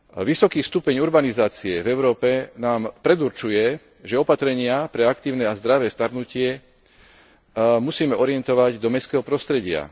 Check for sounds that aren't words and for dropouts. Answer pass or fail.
pass